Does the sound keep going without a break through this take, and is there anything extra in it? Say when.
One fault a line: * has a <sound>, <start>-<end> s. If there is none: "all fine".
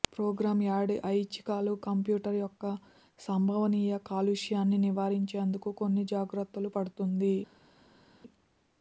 all fine